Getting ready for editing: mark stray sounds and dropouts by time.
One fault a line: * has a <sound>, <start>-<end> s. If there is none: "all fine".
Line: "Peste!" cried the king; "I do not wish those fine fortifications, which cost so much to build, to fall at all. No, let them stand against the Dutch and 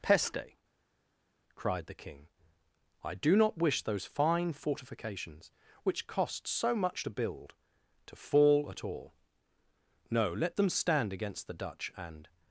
all fine